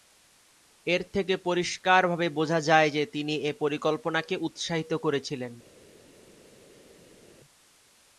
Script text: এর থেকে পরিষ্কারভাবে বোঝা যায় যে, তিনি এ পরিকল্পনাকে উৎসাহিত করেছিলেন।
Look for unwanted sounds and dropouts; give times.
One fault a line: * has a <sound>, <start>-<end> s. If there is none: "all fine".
all fine